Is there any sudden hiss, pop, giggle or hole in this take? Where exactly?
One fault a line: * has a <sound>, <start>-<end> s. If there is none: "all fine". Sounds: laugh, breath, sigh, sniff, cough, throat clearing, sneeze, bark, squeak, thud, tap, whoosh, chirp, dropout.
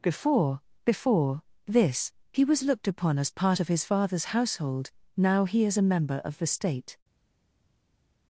all fine